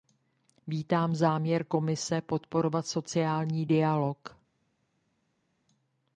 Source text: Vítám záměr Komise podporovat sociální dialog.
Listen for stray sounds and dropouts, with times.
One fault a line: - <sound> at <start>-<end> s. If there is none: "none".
none